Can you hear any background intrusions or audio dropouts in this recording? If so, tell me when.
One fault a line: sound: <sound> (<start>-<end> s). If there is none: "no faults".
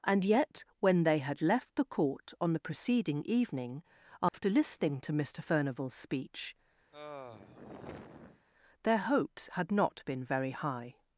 sound: dropout (4.3-4.3 s)
sound: sigh (6.9-8.5 s)